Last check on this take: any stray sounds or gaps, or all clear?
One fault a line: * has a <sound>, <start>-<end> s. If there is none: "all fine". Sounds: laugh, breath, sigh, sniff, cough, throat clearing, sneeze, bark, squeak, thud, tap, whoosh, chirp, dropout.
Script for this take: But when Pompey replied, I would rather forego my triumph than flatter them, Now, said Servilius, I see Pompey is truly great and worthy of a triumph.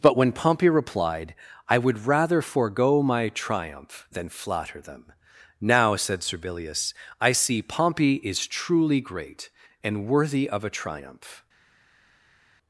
all fine